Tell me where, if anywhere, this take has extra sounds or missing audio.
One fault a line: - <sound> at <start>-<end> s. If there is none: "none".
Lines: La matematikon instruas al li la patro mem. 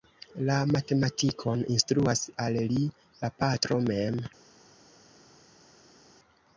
none